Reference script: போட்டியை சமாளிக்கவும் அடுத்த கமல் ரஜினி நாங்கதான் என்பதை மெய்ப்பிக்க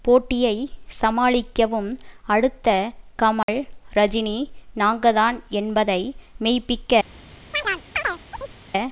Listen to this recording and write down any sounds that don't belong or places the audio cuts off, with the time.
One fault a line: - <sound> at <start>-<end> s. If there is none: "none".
- dropout at 3.4-3.5 s
- chirp at 7.5-8.5 s